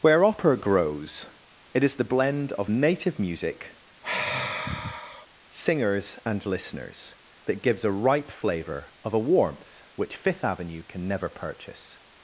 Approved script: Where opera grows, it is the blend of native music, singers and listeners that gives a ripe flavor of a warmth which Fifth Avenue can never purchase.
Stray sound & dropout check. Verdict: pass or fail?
fail